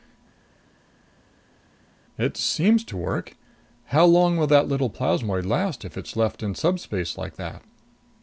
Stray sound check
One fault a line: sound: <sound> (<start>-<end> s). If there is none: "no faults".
no faults